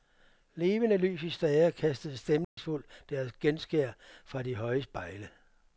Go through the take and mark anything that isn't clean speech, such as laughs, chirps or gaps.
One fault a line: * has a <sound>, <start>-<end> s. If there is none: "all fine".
* has a dropout, 2.4-2.6 s